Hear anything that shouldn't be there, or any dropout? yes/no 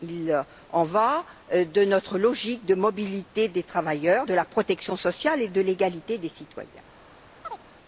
yes